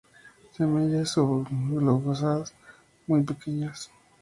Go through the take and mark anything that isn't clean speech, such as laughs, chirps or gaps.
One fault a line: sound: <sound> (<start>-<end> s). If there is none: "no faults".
no faults